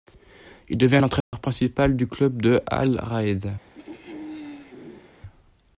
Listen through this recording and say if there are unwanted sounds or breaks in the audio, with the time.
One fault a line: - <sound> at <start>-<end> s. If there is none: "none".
- dropout at 1.2-1.3 s
- throat clearing at 3.7-5.1 s